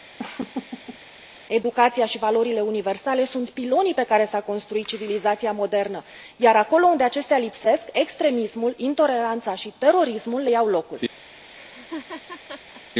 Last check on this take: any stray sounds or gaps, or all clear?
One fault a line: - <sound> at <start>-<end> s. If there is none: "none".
- laugh at 0.2-1.0 s
- laugh at 11.5-12.8 s